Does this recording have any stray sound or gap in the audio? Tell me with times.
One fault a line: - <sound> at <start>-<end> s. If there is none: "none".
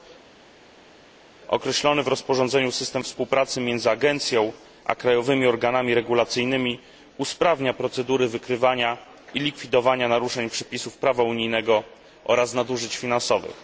none